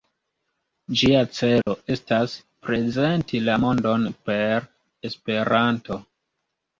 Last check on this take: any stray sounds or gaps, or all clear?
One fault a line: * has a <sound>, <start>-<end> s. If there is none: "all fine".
* has a dropout, 1.6-1.7 s